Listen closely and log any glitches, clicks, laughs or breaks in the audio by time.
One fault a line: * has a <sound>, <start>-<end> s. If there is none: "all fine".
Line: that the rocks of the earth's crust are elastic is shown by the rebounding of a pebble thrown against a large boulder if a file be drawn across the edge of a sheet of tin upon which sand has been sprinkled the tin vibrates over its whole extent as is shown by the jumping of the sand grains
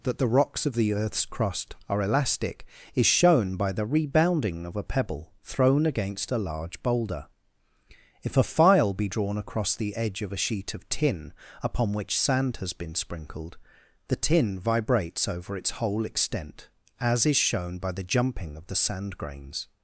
all fine